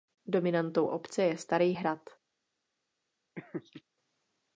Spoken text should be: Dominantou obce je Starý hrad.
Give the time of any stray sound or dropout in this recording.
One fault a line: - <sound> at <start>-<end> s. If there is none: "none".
- laugh at 3.4-3.8 s